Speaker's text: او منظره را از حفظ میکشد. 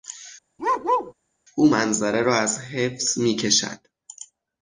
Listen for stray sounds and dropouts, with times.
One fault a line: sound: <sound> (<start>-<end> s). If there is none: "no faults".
sound: bark (0.6-1.1 s)